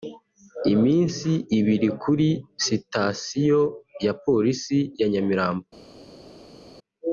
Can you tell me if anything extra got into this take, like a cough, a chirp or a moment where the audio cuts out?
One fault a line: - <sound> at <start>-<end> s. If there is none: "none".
none